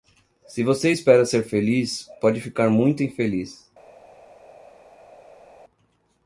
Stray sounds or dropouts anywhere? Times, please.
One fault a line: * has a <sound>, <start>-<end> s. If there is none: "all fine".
all fine